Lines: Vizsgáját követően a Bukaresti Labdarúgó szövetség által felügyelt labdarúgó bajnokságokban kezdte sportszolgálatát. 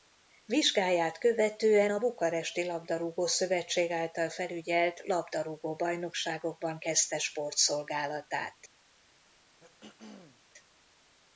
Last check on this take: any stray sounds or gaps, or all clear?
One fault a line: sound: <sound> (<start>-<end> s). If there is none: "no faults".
sound: throat clearing (9.6-10.4 s)